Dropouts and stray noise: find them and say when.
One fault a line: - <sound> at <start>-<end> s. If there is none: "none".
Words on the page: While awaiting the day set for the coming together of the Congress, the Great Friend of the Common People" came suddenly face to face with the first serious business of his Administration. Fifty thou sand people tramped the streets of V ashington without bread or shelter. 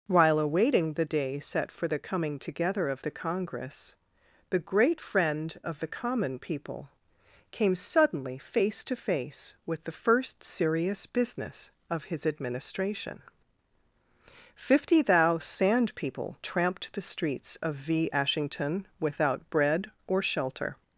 none